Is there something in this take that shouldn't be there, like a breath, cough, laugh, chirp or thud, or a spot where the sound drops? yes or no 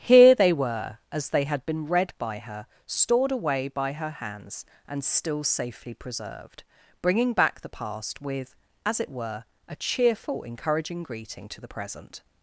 no